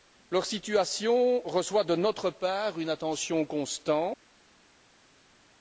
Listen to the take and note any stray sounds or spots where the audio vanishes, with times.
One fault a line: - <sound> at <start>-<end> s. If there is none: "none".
none